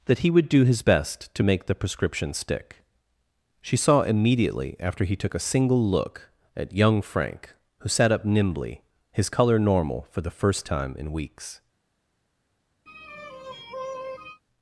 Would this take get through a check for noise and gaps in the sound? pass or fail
fail